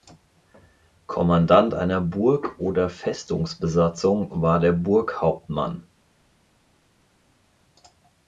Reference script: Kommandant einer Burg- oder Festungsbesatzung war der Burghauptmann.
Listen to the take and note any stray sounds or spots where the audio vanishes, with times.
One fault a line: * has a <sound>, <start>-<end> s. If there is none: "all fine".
all fine